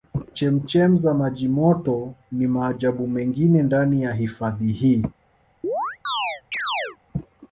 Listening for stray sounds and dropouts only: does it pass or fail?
fail